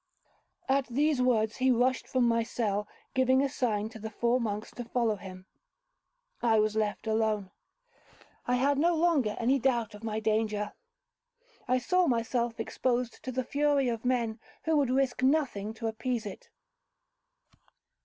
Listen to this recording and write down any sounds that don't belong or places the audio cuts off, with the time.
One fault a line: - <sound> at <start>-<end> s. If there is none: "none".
none